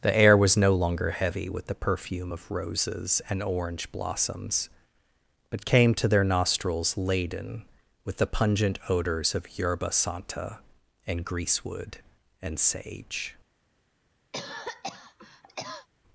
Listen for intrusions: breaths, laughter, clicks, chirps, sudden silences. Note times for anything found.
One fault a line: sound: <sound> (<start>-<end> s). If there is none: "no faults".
sound: cough (14.3-15.9 s)